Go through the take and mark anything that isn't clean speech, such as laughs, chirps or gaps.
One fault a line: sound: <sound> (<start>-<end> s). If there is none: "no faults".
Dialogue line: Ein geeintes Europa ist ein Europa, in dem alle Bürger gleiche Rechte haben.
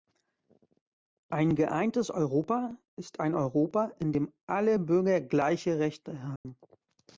sound: dropout (6.4-6.5 s)